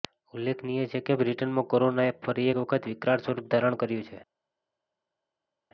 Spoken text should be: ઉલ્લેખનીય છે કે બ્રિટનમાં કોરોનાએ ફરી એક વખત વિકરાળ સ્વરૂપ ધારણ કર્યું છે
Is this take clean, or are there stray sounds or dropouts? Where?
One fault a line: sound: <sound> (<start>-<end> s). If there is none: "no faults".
no faults